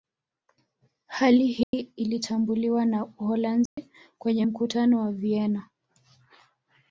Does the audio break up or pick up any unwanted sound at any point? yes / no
yes